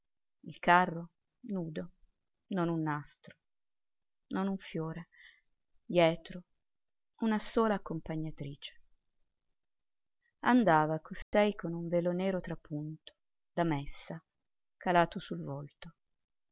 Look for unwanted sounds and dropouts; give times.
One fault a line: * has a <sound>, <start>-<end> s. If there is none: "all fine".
* has a dropout, 11.2-11.3 s